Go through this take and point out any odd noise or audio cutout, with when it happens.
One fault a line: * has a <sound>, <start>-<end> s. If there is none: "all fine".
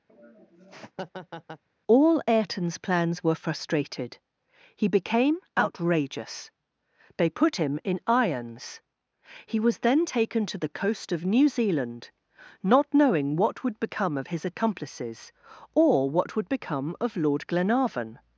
* has a laugh, 0.1-1.6 s